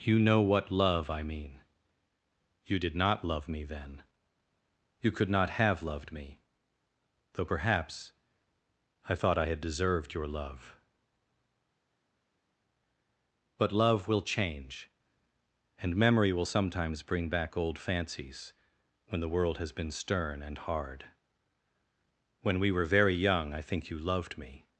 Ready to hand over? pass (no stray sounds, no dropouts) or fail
pass